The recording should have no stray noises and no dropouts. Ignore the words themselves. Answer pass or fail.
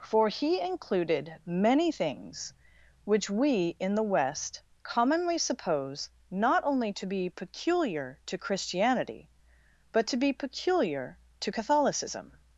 pass